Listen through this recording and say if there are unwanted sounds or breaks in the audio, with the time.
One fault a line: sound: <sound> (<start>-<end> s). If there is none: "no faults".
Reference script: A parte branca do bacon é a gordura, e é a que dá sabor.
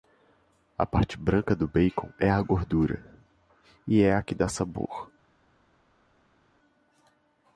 no faults